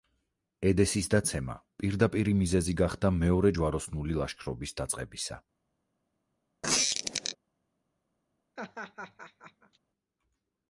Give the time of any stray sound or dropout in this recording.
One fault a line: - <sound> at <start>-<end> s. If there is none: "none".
- squeak at 6.6-7.4 s
- laugh at 8.6-9.8 s